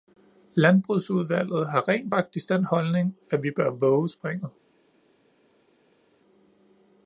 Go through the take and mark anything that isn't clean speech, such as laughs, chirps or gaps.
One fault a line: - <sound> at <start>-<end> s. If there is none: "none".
none